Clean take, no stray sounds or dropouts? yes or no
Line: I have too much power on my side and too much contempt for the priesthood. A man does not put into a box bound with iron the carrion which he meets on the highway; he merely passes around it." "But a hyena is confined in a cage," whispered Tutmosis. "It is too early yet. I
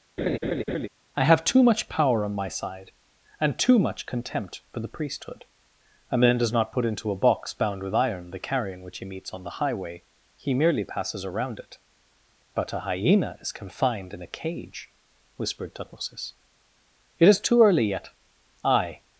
no